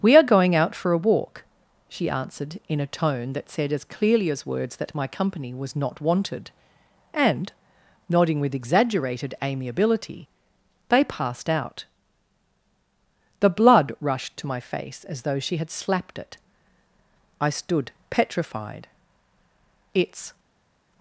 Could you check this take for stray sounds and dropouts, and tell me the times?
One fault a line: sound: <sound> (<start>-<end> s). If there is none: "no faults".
no faults